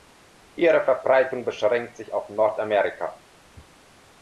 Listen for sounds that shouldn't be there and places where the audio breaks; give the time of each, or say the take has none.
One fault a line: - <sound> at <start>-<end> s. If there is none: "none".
none